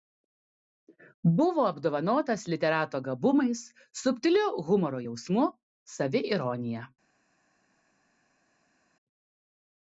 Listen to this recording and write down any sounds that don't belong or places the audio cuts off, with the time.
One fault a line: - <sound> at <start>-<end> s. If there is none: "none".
none